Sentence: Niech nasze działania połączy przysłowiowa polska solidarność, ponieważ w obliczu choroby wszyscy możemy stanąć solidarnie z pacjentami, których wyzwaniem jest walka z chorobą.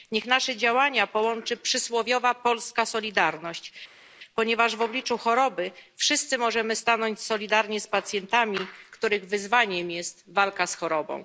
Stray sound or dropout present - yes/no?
no